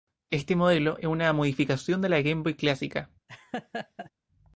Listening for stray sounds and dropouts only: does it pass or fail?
fail